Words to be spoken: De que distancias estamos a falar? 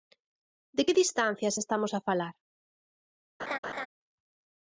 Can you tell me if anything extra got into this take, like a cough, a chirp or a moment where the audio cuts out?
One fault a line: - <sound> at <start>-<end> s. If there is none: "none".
- laugh at 3.4-3.9 s